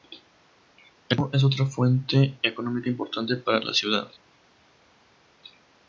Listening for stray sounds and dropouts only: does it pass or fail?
pass